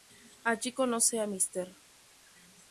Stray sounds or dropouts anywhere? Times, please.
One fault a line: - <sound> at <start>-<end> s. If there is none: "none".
none